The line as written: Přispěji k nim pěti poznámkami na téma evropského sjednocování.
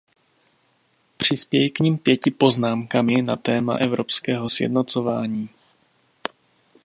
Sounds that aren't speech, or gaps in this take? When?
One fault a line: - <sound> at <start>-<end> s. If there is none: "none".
none